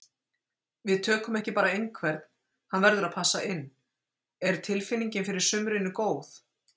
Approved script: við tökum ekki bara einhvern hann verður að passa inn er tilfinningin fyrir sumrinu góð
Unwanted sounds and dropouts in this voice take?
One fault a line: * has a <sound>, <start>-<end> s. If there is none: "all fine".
all fine